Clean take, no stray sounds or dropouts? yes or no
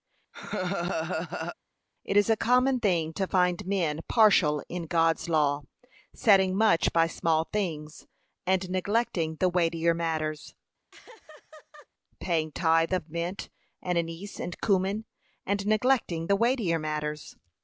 no